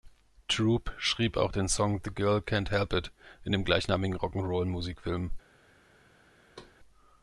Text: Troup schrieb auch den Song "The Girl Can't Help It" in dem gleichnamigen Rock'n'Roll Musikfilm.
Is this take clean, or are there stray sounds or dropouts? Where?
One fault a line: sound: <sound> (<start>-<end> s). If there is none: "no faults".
sound: thud (6.6-6.8 s)